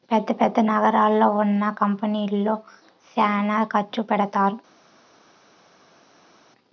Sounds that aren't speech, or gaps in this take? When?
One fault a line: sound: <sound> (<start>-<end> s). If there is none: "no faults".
no faults